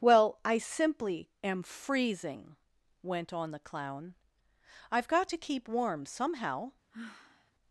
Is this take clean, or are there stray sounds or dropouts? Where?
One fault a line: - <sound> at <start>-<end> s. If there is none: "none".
- sigh at 6.9-7.5 s